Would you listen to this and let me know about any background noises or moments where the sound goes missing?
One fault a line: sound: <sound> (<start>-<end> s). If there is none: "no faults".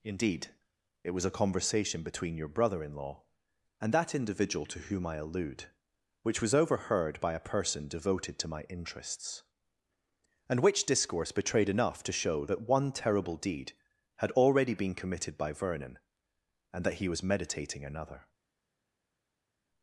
no faults